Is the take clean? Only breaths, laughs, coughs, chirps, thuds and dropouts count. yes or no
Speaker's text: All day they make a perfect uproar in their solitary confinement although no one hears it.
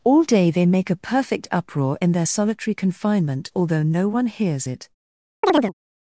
no